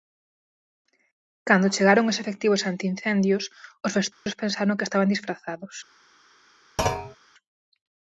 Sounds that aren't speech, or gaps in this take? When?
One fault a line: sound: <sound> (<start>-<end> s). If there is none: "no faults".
sound: dropout (4.1-4.3 s)
sound: thud (6.8-7.2 s)